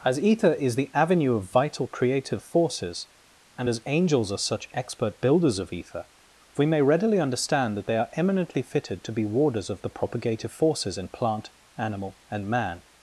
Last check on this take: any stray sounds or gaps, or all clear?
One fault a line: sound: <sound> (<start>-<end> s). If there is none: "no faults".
no faults